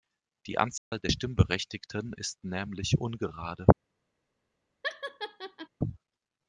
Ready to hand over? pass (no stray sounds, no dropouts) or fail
fail